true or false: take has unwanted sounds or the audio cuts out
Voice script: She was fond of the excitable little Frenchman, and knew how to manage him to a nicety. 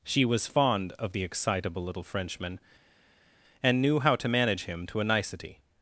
false